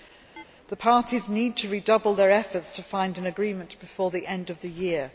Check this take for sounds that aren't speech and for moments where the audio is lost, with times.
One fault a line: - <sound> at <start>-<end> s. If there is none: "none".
- chirp at 0.4-0.4 s